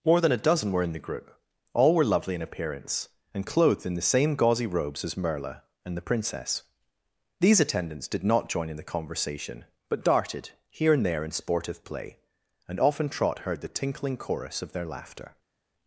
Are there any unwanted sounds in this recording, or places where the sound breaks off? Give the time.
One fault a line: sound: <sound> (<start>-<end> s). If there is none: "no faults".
no faults